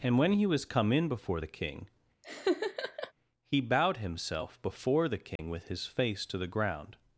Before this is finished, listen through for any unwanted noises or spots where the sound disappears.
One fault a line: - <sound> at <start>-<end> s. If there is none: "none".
- laugh at 2.2-3.1 s
- dropout at 5.4-5.4 s